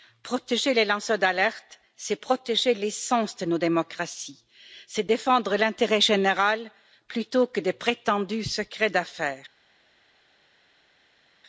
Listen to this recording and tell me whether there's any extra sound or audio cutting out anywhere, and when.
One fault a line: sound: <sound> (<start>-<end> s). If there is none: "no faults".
no faults